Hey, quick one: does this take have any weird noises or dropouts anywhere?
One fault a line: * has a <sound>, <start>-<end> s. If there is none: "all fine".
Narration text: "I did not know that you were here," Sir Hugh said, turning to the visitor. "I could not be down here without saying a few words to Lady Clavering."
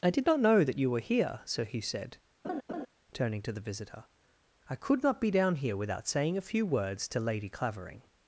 * has a laugh, 2.4-2.9 s